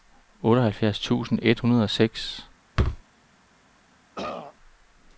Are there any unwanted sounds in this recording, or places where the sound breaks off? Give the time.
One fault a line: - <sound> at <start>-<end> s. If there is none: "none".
- thud at 2.8-3.0 s
- throat clearing at 4.2-4.6 s